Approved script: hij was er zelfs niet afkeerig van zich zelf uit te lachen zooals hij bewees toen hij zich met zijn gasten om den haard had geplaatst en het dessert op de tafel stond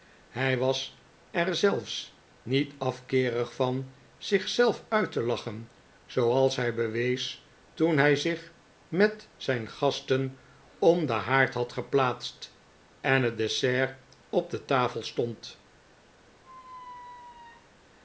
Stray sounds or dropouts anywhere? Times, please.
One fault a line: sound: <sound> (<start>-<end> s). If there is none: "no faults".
sound: squeak (16.4-17.8 s)